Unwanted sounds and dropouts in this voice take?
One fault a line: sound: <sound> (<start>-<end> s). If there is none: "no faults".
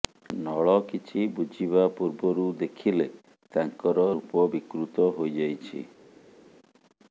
no faults